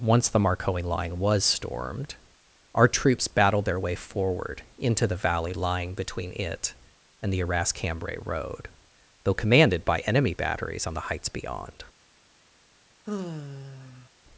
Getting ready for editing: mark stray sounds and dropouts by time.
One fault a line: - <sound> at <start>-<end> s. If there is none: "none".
- sigh at 13.1-14.1 s